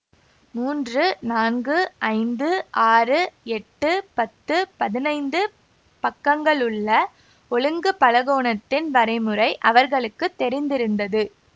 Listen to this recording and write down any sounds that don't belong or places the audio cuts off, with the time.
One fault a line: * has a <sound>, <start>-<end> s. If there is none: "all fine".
all fine